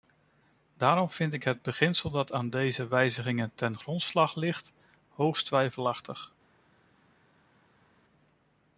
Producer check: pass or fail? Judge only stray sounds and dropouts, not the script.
pass